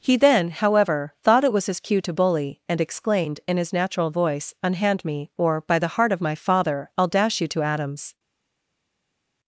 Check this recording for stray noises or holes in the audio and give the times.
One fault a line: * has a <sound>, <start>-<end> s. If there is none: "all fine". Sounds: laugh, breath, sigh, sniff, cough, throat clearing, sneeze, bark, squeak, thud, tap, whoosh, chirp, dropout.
all fine